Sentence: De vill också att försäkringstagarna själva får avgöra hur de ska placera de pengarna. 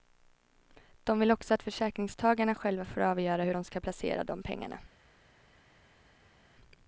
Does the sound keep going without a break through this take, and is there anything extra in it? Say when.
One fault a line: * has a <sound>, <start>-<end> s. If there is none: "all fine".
all fine